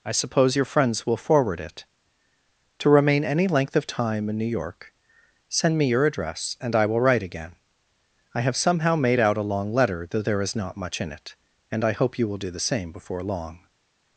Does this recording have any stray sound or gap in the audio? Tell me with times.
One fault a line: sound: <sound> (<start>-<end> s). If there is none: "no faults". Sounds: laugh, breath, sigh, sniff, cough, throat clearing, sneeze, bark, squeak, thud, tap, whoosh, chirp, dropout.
no faults